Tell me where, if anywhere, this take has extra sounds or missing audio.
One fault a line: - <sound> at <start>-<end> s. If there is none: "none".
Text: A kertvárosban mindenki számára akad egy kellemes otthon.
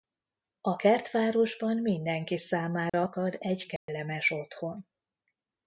- dropout at 2.9-2.9 s
- dropout at 3.8-3.9 s